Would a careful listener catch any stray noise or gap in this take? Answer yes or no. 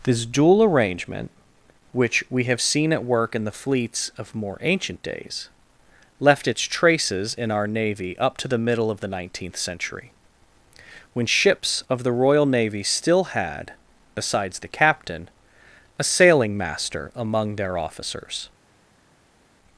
no